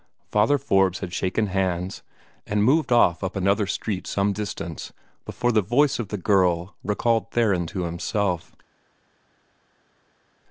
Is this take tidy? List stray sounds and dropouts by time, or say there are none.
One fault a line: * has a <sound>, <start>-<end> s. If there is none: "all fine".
all fine